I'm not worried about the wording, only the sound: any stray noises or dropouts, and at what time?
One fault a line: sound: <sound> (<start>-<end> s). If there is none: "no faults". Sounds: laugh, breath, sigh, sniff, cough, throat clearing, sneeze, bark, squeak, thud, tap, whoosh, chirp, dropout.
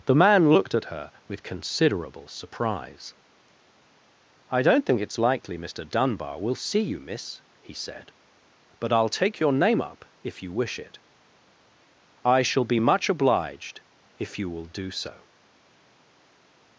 no faults